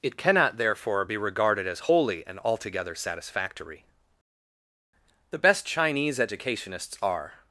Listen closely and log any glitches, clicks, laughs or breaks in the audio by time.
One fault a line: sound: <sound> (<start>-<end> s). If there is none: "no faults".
no faults